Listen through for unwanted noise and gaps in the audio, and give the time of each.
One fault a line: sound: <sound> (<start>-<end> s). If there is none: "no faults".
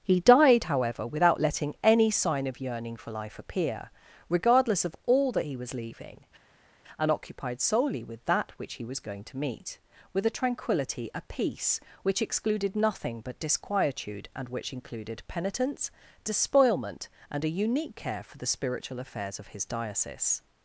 no faults